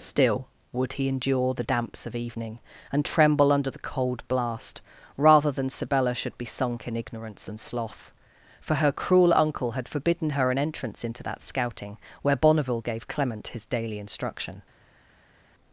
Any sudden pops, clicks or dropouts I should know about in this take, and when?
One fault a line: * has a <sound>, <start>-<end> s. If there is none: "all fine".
all fine